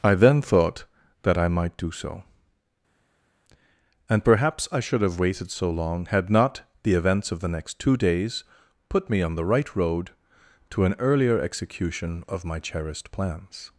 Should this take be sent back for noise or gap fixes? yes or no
no